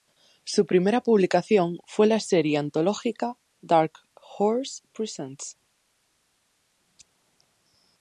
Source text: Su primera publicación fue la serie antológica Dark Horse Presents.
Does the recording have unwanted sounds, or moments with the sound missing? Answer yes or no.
no